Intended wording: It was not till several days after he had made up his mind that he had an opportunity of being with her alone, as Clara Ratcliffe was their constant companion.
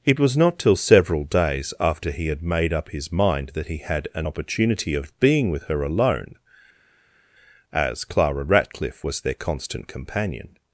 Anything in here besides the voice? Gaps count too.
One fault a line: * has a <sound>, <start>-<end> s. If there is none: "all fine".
all fine